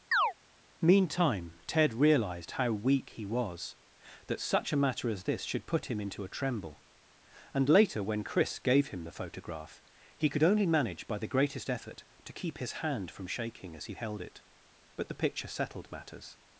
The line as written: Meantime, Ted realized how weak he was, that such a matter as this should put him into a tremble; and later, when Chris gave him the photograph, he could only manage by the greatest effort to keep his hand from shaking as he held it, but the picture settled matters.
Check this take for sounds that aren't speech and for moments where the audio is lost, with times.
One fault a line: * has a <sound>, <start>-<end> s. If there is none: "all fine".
* has a chirp, 0.1-0.3 s